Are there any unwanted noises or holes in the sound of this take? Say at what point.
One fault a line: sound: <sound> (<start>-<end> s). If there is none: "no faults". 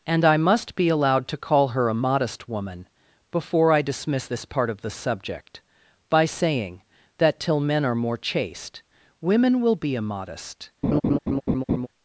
sound: laugh (10.8-11.9 s)